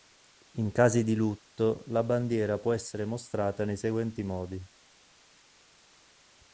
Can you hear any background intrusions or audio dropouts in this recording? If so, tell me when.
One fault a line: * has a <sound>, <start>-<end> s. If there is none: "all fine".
all fine